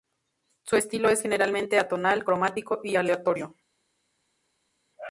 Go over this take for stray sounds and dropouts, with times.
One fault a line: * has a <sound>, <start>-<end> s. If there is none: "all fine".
all fine